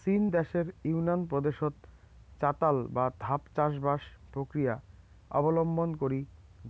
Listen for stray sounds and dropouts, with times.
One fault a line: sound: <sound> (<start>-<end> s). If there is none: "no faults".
no faults